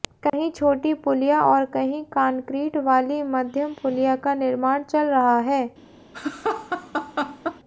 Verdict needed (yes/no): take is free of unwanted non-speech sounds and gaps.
no